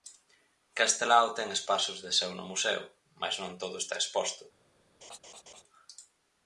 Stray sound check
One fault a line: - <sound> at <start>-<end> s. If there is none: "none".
- laugh at 5.0-5.6 s